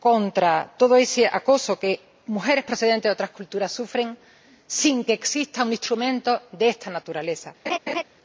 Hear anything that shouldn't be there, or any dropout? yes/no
yes